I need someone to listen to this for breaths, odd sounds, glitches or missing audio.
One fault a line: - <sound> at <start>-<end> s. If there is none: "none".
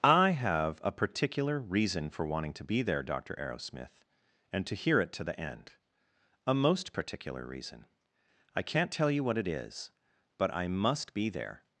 none